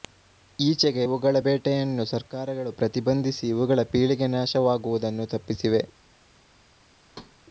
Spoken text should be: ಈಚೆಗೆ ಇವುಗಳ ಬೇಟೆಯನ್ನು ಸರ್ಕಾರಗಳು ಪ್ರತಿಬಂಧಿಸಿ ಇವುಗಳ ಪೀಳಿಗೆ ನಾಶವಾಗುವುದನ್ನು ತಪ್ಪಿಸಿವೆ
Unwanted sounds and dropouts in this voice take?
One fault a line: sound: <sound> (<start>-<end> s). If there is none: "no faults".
sound: thud (7.1-7.4 s)